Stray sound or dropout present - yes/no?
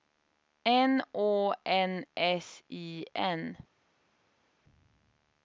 no